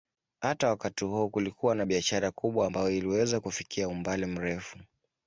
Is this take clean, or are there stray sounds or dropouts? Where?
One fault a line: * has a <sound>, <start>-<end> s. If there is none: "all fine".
all fine